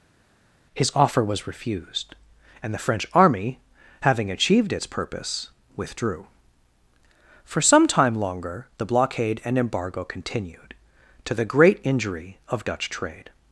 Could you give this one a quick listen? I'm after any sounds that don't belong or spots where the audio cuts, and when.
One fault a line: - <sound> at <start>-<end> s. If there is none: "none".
none